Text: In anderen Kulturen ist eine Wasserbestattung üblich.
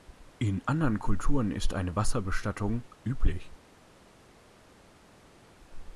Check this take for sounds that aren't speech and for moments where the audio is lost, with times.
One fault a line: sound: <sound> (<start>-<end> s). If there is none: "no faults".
no faults